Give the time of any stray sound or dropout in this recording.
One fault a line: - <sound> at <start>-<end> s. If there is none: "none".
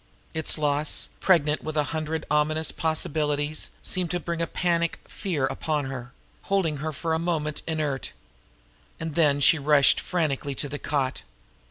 none